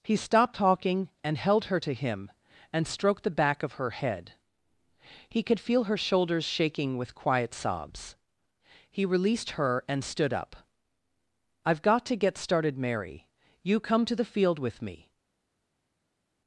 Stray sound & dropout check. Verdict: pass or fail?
pass